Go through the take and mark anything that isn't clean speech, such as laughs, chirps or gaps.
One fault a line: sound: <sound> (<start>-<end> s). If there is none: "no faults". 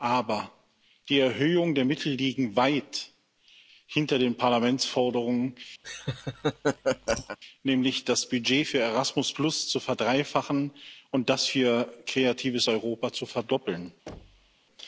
sound: laugh (5.8-7.4 s)
sound: thud (14.1-14.6 s)